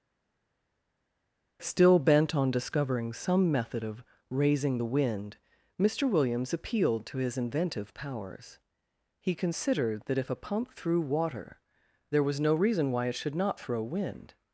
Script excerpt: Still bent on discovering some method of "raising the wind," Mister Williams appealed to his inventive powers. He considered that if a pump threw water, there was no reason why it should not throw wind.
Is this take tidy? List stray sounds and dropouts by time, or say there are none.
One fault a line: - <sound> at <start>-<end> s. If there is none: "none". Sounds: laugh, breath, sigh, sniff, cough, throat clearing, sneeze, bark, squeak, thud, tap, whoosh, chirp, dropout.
none